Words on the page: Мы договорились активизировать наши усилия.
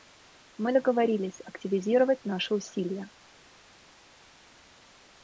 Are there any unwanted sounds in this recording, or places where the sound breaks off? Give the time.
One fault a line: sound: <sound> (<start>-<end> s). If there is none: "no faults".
no faults